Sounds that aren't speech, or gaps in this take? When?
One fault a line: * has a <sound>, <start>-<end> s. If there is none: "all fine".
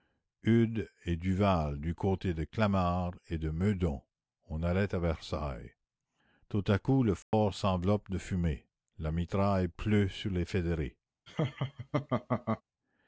* has a dropout, 7.2-7.3 s
* has a laugh, 11.3-12.6 s